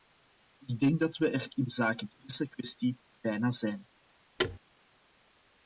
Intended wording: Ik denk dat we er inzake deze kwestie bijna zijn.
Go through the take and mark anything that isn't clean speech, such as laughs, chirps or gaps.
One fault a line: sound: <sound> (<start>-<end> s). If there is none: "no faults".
sound: thud (4.4-4.6 s)